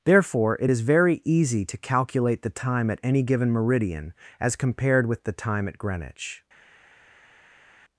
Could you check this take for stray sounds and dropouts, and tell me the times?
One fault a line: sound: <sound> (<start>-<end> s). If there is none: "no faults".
no faults